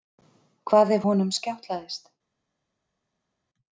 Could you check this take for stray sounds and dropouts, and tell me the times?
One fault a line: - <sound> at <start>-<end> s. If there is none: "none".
none